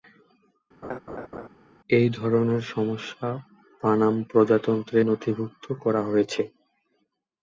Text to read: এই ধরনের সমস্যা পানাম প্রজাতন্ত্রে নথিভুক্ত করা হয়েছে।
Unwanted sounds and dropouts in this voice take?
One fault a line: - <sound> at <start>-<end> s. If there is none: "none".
- laugh at 0.8-1.5 s